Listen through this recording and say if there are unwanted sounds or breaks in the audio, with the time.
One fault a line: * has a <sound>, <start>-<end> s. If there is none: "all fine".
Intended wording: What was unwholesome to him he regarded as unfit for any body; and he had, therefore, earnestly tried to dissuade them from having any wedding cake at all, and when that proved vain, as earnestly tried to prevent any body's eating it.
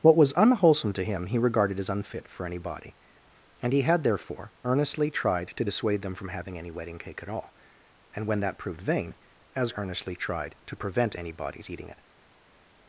all fine